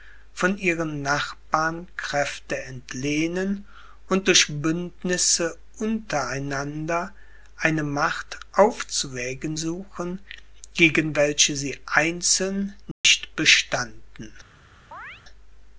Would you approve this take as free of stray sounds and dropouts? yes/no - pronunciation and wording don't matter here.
no